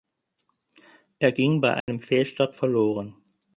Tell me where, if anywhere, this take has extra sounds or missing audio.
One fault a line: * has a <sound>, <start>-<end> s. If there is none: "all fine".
* has a dropout, 1.8-1.9 s